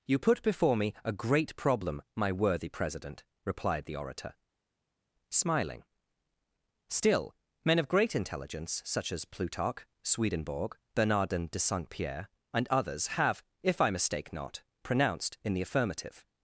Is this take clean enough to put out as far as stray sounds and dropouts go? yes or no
yes